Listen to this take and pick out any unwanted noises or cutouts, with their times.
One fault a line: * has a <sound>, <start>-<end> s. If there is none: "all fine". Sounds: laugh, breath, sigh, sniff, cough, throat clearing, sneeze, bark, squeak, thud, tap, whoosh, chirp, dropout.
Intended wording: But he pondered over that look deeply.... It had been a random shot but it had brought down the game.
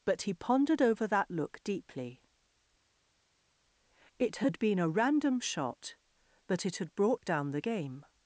all fine